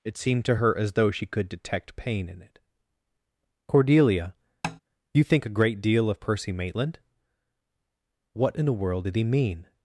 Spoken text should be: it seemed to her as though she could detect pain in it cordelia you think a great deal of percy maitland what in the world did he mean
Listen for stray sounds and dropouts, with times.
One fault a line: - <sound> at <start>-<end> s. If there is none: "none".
- tap at 4.6-4.8 s